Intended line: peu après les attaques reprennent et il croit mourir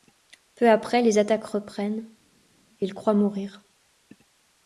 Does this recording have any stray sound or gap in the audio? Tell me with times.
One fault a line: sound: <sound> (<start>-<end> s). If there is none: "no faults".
no faults